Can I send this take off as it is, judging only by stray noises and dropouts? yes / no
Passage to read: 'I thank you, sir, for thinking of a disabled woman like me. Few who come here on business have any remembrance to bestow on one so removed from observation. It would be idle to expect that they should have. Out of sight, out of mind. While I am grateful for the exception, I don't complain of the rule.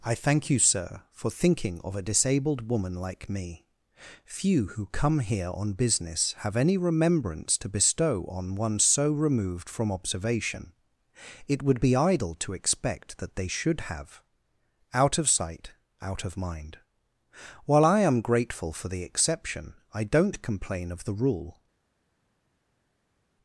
yes